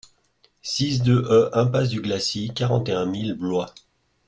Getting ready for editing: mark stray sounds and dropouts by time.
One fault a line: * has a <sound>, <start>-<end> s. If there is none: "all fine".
all fine